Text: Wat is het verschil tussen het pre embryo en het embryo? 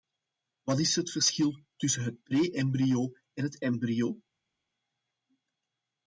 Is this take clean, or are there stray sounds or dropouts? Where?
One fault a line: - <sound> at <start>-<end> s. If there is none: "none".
none